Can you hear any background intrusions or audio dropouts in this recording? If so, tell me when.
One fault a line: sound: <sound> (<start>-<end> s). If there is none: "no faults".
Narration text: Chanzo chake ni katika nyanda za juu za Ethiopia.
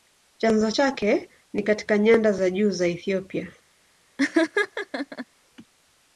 sound: laugh (4.2-5.3 s)